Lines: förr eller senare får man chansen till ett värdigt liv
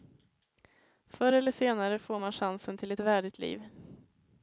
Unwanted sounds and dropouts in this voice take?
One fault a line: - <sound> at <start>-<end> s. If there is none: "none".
none